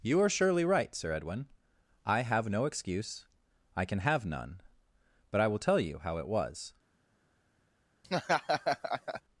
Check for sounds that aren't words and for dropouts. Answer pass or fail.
fail